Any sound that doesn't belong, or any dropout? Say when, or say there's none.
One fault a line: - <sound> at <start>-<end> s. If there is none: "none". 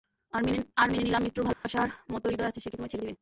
- dropout at 1.5-1.6 s